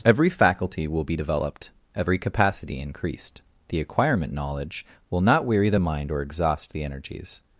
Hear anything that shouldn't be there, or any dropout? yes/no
no